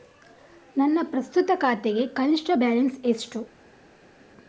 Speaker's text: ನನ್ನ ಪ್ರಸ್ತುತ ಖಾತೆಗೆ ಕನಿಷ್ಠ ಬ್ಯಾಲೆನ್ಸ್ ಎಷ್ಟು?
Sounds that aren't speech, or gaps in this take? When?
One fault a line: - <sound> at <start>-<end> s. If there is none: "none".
none